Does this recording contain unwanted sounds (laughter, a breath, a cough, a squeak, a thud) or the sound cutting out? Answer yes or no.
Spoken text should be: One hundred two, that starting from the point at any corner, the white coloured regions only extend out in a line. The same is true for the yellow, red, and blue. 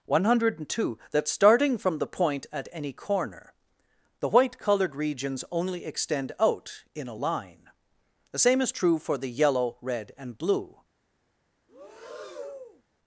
yes